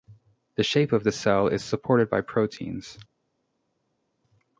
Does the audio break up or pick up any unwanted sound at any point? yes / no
no